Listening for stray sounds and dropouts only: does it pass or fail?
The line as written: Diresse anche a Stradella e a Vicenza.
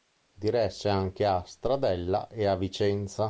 pass